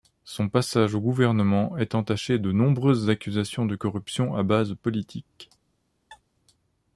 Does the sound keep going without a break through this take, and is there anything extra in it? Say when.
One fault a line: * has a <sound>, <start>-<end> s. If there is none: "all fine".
* has a sneeze, 6.1-6.2 s